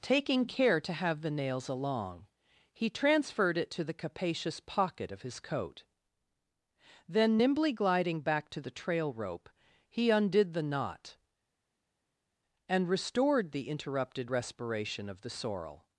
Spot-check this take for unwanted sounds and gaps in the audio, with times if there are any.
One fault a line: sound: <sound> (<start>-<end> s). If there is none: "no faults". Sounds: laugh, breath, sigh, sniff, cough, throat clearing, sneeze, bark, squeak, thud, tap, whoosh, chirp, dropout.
no faults